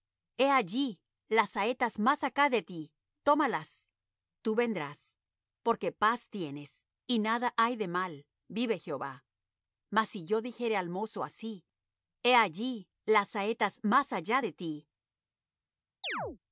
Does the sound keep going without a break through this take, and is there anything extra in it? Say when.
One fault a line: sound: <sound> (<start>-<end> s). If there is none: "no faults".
sound: chirp (16.0-16.4 s)